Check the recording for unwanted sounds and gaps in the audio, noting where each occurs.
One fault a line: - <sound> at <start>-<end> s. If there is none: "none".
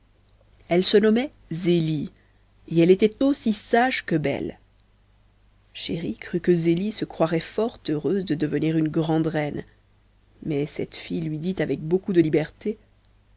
none